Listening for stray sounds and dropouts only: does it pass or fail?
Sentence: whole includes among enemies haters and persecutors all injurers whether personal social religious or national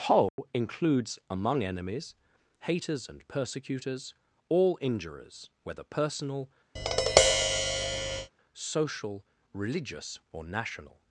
fail